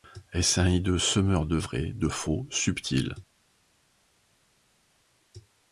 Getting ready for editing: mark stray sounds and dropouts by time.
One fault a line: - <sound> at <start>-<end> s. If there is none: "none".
none